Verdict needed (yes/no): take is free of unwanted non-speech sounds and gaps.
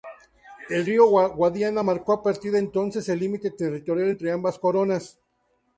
yes